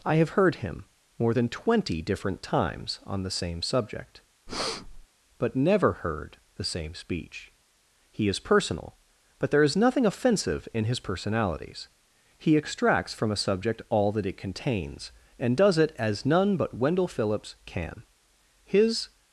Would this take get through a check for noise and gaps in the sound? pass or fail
fail